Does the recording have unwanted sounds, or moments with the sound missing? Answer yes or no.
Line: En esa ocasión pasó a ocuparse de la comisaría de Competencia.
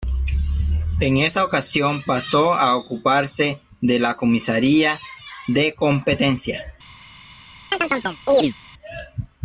yes